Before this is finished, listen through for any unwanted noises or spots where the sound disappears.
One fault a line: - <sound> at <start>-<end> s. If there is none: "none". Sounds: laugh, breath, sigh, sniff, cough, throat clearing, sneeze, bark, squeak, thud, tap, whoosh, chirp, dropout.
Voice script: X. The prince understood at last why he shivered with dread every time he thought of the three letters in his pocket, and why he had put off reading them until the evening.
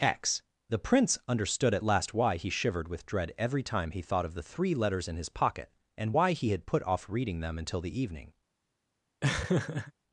- laugh at 9.2-9.9 s